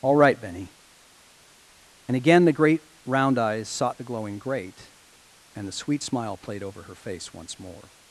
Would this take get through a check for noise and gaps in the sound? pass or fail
pass